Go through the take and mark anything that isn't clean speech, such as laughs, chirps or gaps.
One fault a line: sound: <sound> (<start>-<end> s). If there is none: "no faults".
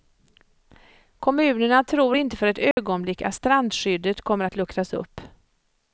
sound: dropout (2.7-2.8 s)